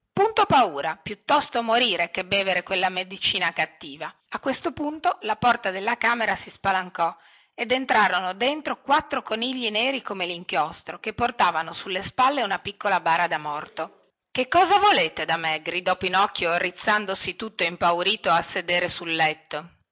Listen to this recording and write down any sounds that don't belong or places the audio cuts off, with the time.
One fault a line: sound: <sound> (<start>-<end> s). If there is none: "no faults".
no faults